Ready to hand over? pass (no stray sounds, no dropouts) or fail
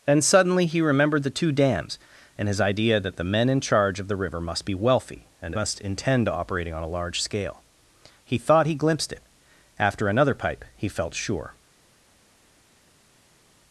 pass